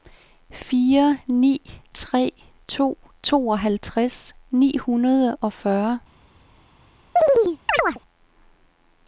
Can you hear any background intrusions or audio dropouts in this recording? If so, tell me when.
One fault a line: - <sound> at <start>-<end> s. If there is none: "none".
- chirp at 7.2-8.0 s